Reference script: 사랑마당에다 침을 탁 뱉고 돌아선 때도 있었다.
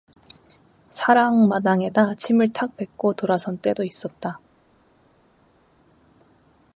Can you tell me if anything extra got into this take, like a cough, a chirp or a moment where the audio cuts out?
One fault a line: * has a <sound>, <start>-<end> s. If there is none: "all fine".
all fine